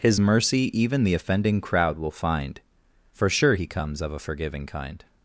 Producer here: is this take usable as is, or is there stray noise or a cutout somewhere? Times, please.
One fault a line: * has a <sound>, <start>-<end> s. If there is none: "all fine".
all fine